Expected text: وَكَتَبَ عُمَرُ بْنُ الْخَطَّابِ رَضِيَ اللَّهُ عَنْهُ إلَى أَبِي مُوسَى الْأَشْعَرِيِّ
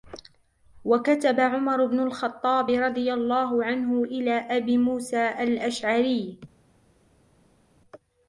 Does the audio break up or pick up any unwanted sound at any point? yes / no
no